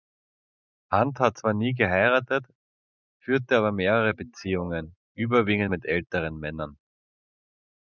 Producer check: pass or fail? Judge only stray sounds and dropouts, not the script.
pass